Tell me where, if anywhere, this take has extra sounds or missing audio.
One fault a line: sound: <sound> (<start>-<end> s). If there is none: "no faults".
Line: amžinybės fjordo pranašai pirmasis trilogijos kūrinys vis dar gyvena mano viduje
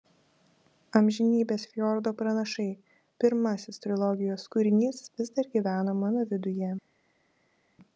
no faults